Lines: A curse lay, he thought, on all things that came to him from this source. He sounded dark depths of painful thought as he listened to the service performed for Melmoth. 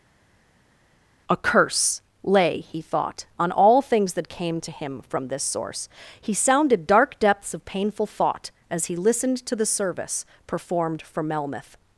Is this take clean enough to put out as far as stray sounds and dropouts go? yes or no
yes